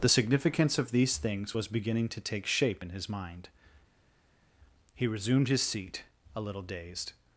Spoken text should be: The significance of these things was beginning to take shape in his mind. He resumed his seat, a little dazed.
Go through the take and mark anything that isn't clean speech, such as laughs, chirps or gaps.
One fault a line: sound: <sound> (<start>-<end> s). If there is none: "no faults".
no faults